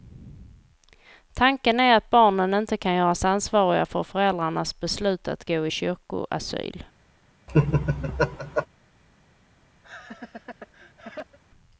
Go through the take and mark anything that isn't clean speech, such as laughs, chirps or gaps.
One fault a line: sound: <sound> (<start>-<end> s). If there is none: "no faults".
sound: laugh (7.5-8.7 s)
sound: laugh (9.8-11.4 s)